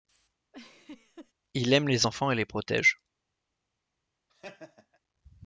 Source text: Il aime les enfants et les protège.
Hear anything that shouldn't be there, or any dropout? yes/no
yes